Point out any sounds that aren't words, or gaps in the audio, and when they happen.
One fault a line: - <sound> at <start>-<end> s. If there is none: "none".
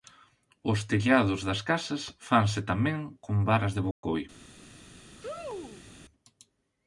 - dropout at 3.9-4.0 s
- sneeze at 5.2-5.9 s